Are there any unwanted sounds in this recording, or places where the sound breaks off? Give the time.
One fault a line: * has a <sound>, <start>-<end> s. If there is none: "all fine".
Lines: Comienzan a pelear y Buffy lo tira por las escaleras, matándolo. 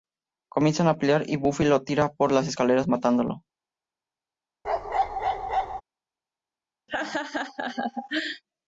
* has a bark, 4.6-5.8 s
* has a laugh, 6.9-8.4 s